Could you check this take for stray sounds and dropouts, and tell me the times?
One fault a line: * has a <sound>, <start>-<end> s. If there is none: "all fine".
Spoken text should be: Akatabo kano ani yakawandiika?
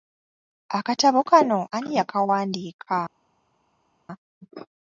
all fine